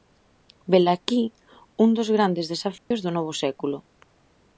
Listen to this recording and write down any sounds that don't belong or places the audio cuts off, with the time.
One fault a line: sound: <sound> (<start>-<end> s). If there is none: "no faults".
sound: dropout (2.8-2.9 s)